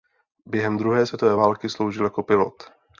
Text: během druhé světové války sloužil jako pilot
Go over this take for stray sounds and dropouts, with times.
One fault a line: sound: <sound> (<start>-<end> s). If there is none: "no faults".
no faults